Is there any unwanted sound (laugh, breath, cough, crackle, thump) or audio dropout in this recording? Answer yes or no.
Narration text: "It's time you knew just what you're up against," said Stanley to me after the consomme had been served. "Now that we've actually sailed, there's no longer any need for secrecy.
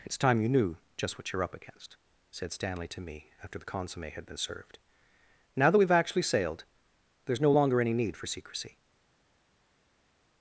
no